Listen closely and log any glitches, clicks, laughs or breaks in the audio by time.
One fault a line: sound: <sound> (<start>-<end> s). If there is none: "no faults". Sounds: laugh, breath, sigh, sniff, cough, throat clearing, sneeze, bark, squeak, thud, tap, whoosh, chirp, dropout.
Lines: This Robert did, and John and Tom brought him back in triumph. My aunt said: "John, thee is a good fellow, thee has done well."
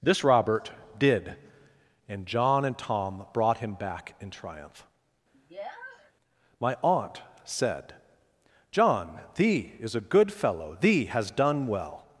sound: sniff (5.3-6.1 s)